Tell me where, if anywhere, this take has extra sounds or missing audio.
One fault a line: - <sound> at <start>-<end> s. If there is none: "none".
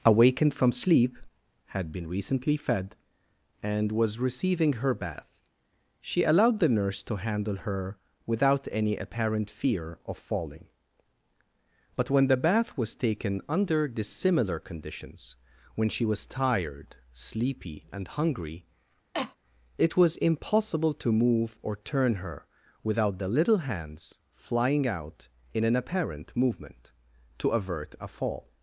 - cough at 19.1-19.4 s